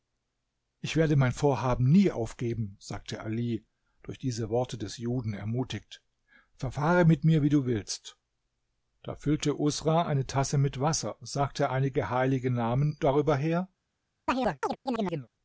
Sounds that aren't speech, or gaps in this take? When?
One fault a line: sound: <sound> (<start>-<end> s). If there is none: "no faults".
sound: chirp (14.3-15.3 s)